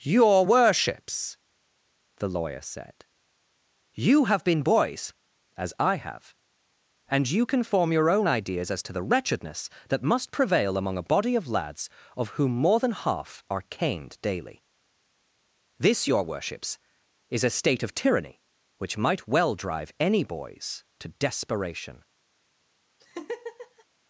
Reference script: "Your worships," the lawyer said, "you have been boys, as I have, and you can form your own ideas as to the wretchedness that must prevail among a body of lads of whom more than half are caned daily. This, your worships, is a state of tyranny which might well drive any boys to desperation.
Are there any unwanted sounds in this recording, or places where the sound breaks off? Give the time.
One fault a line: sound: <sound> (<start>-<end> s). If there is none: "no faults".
sound: laugh (23.0-23.8 s)